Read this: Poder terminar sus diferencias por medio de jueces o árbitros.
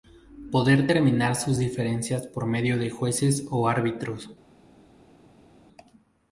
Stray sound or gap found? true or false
false